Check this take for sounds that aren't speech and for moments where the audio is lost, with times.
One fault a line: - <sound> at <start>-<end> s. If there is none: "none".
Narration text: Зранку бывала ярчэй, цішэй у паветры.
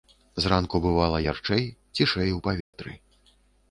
- dropout at 2.6-2.7 s